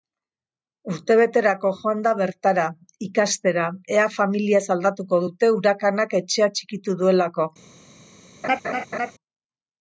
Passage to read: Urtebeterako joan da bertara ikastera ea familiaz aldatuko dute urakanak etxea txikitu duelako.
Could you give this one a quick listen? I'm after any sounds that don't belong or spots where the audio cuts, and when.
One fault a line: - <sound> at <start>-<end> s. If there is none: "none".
- laugh at 8.4-9.1 s